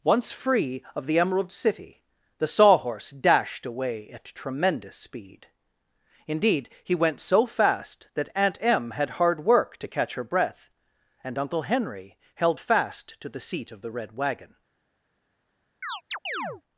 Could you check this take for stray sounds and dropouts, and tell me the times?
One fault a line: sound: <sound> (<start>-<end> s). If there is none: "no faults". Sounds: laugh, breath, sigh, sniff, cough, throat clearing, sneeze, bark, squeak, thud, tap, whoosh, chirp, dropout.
sound: chirp (15.8-16.6 s)